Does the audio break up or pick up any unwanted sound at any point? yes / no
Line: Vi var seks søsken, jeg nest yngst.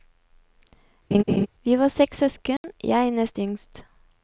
yes